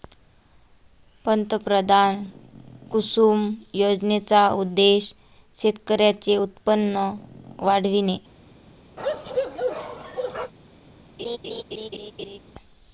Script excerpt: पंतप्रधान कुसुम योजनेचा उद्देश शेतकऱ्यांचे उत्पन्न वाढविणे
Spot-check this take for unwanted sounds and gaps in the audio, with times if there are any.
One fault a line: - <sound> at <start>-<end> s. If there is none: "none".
- bark at 9.0-10.5 s
- laugh at 11.2-12.4 s